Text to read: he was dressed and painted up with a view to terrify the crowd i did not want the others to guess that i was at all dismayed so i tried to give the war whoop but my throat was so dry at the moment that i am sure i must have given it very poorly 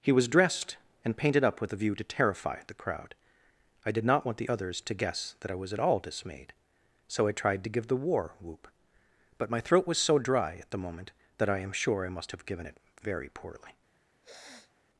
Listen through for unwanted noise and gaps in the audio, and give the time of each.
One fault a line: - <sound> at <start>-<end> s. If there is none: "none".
- sniff at 14.2-14.8 s